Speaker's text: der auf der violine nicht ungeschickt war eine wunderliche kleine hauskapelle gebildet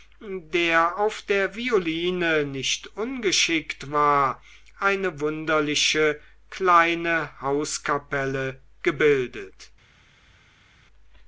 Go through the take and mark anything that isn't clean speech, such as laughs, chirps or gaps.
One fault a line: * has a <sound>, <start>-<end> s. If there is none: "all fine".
all fine